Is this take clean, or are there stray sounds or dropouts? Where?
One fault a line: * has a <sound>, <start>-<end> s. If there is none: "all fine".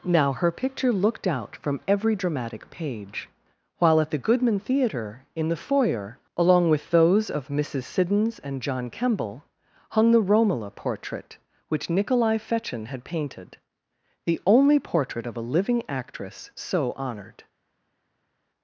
all fine